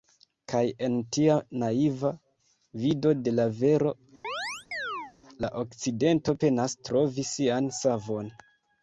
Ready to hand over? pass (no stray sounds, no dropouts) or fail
fail